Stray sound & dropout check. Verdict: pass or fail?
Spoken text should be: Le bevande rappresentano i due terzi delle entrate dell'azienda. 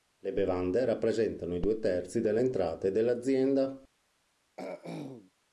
fail